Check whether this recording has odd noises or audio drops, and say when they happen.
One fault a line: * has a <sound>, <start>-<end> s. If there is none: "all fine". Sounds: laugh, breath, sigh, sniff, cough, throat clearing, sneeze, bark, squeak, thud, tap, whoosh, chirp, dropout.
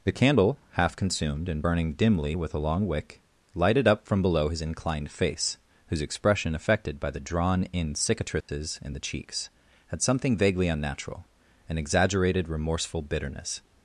* has a dropout, 8.4-8.5 s